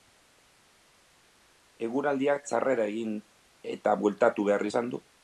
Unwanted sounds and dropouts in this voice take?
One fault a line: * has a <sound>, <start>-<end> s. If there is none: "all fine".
all fine